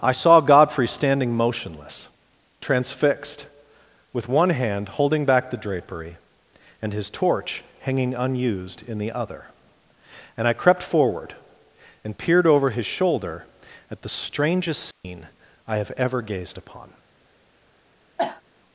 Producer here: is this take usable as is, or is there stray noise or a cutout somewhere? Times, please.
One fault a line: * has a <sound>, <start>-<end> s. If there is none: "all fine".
* has a dropout, 14.9-15.0 s
* has a cough, 18.2-18.4 s